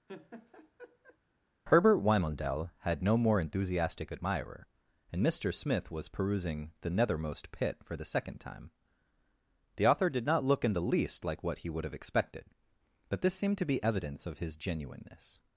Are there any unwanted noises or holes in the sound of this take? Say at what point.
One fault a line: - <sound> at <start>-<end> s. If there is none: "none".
- laugh at 0.1-1.2 s